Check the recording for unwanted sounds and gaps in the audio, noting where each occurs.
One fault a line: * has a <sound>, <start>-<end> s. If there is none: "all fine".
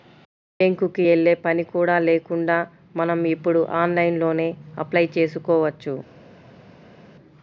all fine